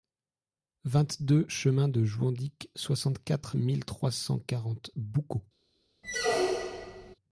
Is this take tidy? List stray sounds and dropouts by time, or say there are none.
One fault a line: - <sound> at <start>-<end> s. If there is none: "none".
- squeak at 6.0-7.2 s